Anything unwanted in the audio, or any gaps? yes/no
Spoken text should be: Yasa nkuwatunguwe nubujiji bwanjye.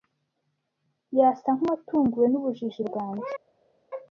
no